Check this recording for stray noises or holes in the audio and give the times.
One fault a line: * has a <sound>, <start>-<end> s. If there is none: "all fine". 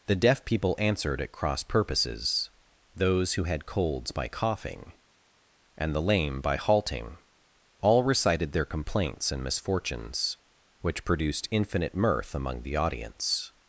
all fine